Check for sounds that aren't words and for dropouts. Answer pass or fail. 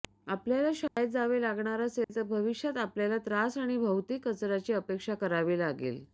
fail